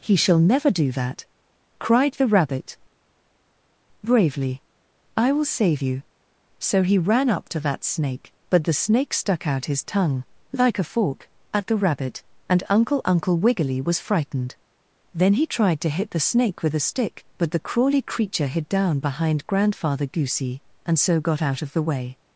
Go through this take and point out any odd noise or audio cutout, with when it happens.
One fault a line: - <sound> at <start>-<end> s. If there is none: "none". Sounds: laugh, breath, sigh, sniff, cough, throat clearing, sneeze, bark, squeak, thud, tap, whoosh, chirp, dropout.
none